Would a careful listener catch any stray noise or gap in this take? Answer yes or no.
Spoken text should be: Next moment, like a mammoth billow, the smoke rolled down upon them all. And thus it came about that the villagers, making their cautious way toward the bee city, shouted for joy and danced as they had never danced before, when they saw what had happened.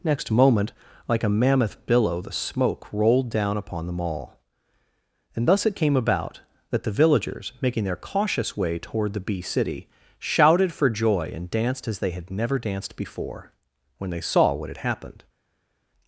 no